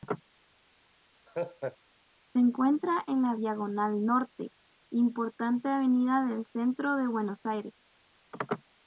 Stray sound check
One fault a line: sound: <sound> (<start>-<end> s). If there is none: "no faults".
sound: laugh (1.3-1.8 s)